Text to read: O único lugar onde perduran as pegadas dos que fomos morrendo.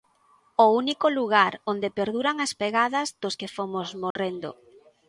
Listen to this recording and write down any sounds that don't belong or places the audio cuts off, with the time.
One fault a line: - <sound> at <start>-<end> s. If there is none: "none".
- dropout at 4.1-4.2 s